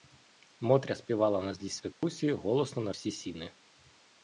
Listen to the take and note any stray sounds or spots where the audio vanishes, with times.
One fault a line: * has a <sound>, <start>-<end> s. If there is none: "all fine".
* has a dropout, 1.9-2.0 s